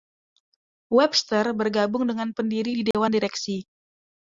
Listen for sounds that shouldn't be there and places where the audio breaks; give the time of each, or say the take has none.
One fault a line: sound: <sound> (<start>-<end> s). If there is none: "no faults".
sound: dropout (2.9-2.9 s)